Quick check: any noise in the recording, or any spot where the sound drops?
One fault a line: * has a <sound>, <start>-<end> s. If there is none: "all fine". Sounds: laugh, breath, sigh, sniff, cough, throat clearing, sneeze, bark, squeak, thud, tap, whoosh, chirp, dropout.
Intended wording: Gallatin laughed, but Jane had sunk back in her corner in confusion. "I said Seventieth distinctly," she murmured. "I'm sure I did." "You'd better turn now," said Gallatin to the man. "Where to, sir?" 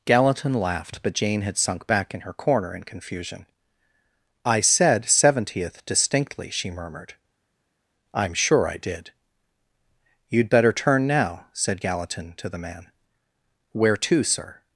all fine